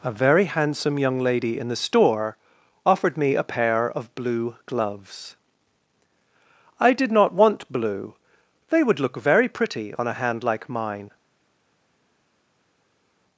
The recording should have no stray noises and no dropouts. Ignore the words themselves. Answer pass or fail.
pass